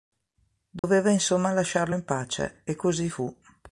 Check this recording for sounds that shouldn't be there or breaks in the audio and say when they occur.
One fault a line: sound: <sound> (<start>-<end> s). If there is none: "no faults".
sound: dropout (0.8-0.8 s)